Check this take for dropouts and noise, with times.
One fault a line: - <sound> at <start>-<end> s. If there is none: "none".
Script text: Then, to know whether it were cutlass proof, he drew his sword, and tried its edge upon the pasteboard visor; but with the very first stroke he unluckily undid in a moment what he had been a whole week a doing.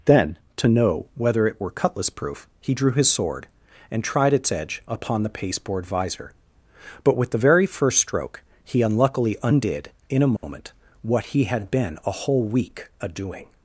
- dropout at 10.4-10.4 s